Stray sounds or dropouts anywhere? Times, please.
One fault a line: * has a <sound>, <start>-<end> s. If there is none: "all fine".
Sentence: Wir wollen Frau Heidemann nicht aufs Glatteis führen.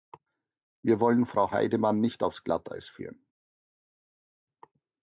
all fine